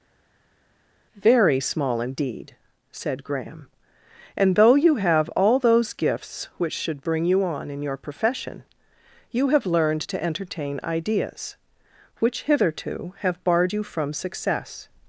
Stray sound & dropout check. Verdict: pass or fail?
pass